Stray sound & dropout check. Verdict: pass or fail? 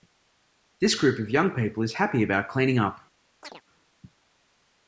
fail